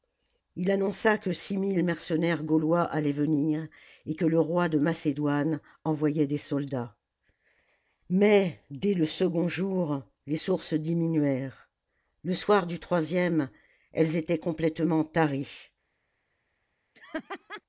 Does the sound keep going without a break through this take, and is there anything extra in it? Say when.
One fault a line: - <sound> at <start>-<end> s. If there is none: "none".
- laugh at 16.9-17.6 s